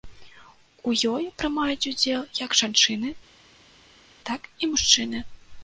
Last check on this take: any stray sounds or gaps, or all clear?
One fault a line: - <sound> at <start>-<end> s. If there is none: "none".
none